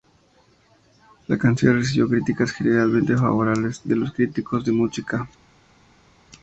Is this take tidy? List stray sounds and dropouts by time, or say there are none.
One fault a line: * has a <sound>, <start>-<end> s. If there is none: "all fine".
all fine